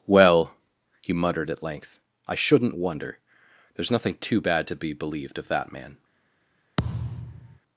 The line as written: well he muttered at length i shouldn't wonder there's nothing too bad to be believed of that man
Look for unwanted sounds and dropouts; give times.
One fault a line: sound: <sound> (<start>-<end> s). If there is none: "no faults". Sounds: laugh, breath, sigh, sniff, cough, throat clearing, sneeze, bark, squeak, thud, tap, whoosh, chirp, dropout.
sound: thud (6.8-7.6 s)